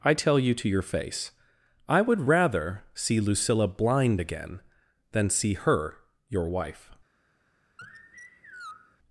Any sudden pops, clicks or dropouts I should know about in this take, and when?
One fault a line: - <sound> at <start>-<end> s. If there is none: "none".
- sigh at 7.8-9.0 s